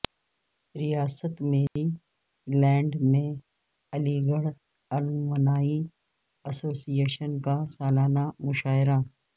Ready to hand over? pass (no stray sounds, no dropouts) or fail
fail